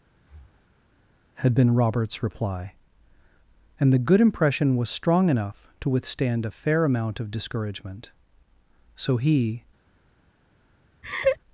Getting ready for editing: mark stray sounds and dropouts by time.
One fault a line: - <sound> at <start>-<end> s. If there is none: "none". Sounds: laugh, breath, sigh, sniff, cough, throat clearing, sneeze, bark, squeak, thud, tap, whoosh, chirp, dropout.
- breath at 0.2-0.9 s
- laugh at 11.0-11.4 s